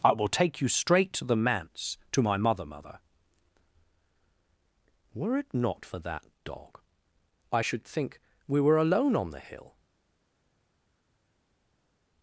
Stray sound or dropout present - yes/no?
no